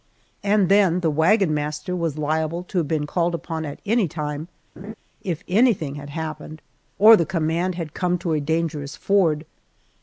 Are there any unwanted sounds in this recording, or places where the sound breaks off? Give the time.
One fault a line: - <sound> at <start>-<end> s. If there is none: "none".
- laugh at 4.8-4.9 s